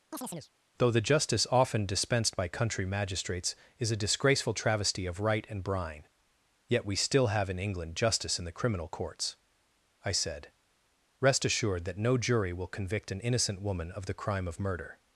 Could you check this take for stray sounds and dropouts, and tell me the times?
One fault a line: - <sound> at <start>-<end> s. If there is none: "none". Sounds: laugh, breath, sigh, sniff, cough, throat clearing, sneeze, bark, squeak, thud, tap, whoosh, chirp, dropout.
- chirp at 0.1-0.5 s